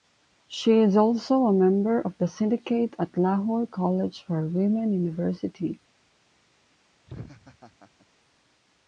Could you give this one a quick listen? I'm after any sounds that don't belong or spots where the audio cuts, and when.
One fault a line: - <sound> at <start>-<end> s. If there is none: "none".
- laugh at 7.1-8.1 s